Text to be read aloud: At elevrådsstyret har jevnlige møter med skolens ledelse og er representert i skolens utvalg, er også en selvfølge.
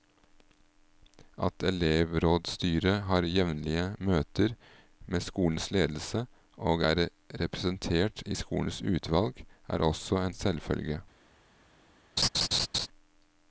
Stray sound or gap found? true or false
true